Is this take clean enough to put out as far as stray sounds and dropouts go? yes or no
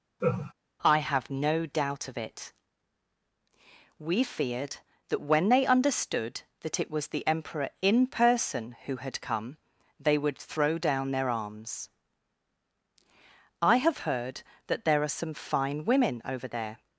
no